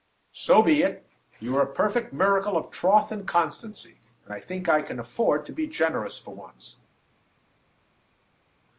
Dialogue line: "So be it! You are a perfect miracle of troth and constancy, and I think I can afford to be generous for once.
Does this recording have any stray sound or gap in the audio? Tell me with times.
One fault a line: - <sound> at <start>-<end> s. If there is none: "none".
none